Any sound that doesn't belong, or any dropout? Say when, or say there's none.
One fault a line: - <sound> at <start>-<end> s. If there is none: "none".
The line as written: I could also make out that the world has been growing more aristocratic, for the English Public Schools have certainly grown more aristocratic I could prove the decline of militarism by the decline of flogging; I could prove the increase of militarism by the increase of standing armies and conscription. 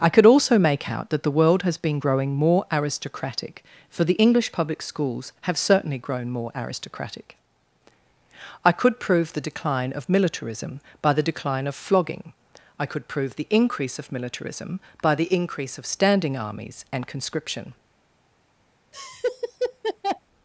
- laugh at 18.9-20.2 s